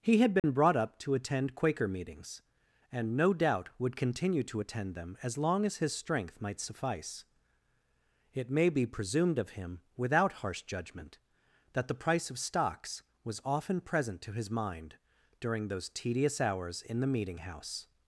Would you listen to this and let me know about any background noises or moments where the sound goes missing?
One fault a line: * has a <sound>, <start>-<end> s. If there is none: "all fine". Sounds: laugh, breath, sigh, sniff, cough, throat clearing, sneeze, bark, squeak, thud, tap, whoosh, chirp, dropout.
* has a dropout, 0.4-0.4 s